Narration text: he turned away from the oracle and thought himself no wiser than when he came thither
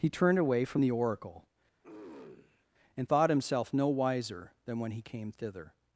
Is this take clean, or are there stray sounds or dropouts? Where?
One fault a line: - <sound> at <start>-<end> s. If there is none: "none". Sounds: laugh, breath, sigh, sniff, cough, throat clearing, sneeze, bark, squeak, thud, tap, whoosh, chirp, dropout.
- throat clearing at 1.8-2.7 s